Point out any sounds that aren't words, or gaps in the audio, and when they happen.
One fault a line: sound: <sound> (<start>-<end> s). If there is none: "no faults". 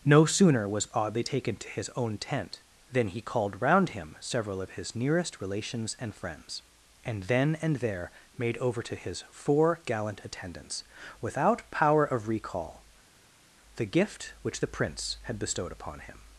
no faults